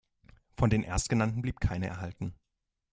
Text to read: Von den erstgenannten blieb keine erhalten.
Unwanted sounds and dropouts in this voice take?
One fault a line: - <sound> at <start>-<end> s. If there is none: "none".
none